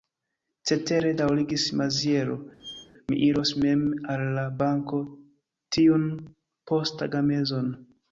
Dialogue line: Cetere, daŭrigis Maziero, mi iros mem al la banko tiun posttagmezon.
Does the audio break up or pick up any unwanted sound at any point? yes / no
yes